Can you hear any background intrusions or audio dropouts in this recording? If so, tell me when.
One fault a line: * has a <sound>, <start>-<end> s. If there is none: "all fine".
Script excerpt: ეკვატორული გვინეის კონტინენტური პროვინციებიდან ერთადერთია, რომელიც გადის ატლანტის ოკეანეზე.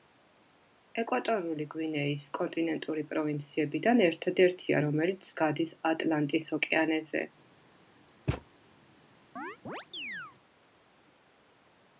* has a thud, 8.3-8.5 s
* has a chirp, 9.4-10.4 s